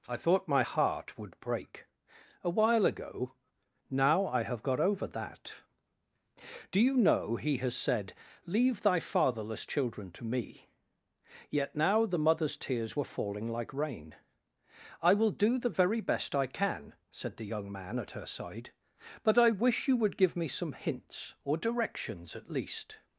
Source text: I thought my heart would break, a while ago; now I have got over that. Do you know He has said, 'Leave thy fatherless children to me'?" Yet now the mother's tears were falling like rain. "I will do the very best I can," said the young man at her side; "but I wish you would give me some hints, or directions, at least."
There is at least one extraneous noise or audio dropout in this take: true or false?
false